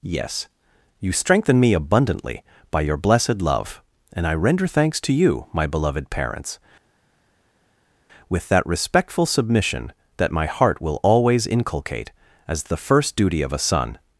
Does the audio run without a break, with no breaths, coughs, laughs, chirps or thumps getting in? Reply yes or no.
yes